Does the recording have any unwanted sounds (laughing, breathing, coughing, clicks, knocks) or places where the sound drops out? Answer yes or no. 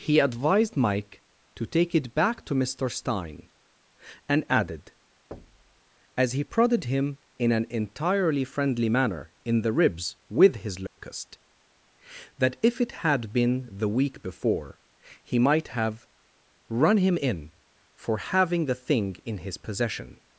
yes